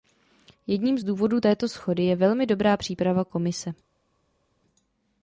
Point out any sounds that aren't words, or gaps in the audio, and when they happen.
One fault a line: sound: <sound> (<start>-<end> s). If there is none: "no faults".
no faults